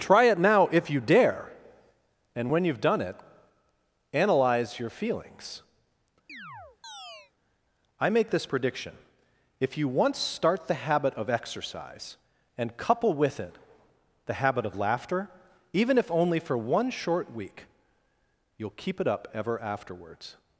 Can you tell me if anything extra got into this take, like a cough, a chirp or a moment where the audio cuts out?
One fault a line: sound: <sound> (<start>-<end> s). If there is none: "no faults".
sound: chirp (6.3-7.3 s)